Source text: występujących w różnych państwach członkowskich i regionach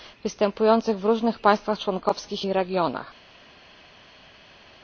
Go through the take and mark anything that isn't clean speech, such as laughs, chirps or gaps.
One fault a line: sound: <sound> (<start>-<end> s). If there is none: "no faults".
no faults